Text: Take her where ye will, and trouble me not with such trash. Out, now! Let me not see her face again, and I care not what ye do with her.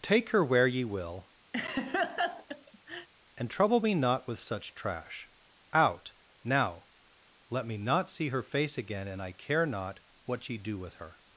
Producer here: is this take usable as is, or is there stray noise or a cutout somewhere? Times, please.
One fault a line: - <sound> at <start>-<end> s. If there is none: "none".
- laugh at 1.5-3.1 s